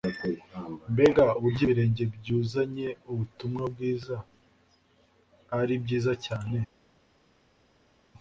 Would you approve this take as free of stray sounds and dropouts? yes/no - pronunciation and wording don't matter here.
yes